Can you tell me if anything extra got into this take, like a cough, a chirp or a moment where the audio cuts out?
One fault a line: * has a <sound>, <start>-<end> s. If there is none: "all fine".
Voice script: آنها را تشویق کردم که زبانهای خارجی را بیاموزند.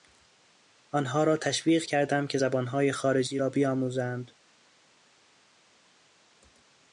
all fine